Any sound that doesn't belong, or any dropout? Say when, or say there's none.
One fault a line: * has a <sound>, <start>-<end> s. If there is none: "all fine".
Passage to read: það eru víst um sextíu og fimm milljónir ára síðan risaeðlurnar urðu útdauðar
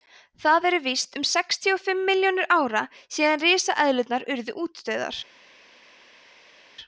all fine